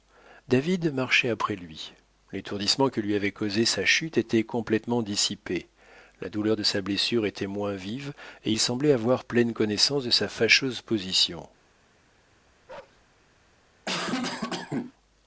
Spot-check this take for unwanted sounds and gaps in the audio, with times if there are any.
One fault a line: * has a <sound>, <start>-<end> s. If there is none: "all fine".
* has a bark, 12.7-13.0 s
* has a cough, 13.9-14.9 s